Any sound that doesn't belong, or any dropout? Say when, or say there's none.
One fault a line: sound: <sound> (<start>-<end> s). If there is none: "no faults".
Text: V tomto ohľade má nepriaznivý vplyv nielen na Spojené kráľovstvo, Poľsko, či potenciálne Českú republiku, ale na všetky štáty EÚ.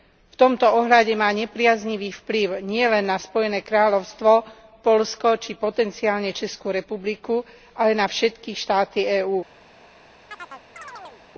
sound: chirp (10.3-11.2 s)